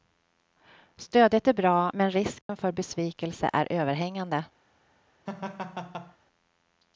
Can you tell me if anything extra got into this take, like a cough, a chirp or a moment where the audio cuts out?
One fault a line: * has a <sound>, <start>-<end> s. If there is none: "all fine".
* has a dropout, 2.4-2.5 s
* has a laugh, 5.3-6.2 s